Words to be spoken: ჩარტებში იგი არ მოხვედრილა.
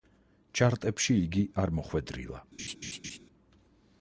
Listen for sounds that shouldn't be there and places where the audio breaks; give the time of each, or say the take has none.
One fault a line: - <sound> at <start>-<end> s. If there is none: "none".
- laugh at 2.6-3.2 s